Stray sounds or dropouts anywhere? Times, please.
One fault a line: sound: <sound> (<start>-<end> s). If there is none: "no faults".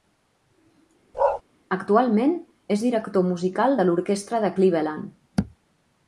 sound: bark (1.1-1.4 s)